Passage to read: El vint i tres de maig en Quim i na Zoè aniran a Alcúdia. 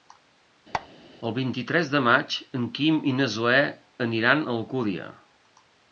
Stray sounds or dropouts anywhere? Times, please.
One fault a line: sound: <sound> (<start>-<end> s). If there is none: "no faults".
sound: squeak (0.7-0.9 s)